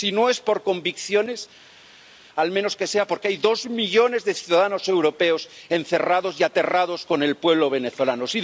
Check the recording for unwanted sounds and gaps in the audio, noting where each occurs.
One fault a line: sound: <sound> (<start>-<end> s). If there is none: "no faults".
no faults